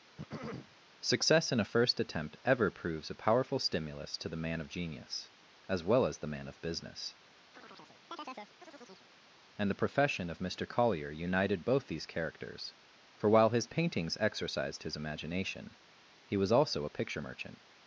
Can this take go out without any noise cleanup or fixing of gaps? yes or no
no